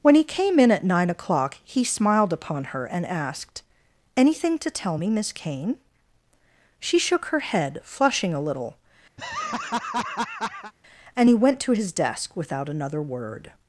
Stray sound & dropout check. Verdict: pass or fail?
fail